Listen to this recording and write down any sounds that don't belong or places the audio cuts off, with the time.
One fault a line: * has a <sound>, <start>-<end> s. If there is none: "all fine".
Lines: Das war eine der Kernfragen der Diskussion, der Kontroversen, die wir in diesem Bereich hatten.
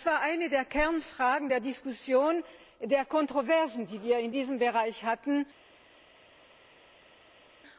all fine